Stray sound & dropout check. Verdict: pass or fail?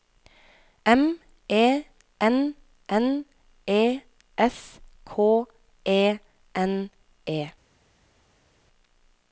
pass